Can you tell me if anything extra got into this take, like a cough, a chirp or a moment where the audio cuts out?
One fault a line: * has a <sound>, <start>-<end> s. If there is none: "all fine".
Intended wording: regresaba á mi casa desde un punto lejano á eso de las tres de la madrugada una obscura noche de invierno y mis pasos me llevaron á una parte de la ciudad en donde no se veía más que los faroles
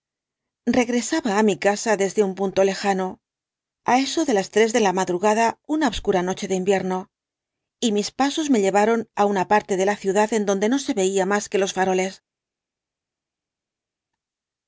all fine